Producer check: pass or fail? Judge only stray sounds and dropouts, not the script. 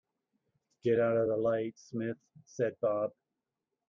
pass